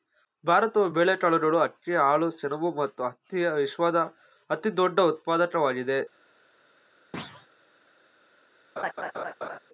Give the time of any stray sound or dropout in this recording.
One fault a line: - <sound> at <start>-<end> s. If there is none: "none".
- thud at 7.1-7.5 s
- laugh at 8.8-9.6 s